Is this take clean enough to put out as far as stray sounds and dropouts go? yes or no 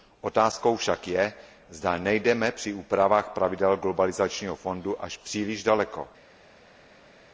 yes